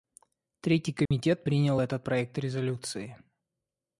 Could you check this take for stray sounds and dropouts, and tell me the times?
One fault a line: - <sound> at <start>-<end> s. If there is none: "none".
- dropout at 1.1-1.1 s